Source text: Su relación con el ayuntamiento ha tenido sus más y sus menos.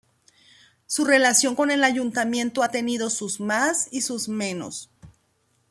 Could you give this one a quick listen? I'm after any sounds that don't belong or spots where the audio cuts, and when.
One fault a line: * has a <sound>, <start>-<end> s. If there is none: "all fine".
all fine